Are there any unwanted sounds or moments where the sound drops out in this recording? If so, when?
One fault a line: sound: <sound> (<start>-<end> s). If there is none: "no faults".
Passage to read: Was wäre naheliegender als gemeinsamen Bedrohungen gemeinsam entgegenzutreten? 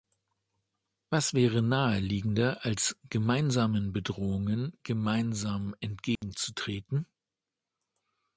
sound: dropout (6.2-6.2 s)